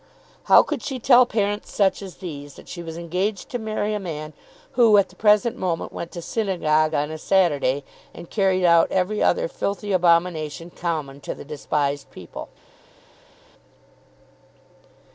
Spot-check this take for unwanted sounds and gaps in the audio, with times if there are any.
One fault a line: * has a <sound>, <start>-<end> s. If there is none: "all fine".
all fine